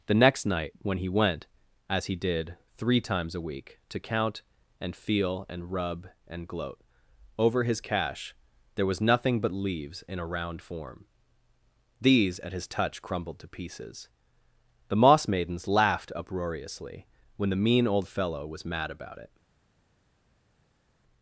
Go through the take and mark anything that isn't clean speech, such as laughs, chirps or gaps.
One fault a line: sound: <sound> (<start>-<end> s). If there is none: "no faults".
no faults